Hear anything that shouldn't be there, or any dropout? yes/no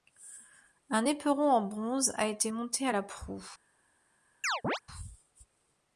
yes